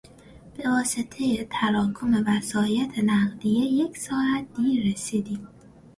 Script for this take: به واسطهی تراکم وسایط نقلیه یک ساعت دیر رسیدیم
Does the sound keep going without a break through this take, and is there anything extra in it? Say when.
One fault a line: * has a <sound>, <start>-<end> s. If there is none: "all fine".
all fine